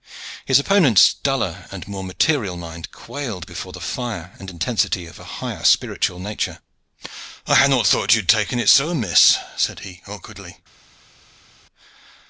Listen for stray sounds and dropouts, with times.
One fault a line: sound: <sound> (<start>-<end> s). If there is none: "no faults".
no faults